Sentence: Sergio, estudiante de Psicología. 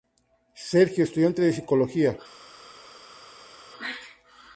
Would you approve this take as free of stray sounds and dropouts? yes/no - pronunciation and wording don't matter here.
yes